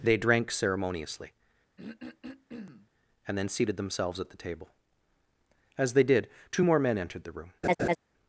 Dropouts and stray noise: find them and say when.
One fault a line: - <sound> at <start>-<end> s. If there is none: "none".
- throat clearing at 1.8-2.9 s
- laugh at 7.6-8.0 s